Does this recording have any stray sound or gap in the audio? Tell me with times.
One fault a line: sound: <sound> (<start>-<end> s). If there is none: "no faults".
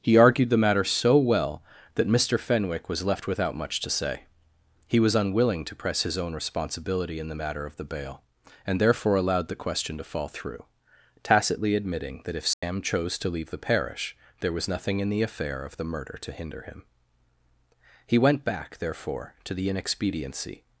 sound: dropout (12.5-12.6 s)